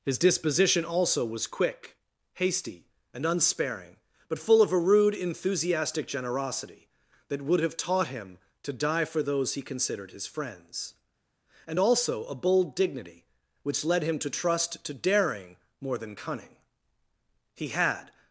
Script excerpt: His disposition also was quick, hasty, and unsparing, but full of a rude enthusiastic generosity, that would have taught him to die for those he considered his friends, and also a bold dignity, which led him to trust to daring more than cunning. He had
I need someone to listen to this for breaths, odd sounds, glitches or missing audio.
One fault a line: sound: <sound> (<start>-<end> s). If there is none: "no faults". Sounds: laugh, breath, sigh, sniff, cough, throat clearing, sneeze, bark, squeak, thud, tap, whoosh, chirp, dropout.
no faults